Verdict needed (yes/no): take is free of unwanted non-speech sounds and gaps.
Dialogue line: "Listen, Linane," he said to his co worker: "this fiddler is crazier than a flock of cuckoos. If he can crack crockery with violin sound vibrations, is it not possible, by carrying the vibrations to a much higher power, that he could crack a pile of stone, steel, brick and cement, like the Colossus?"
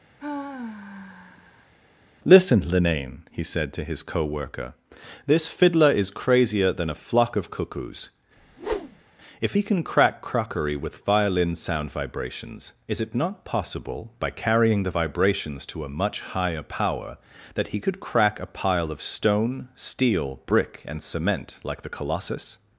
no